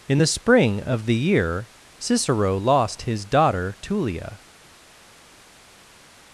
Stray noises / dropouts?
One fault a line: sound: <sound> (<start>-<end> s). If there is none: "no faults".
no faults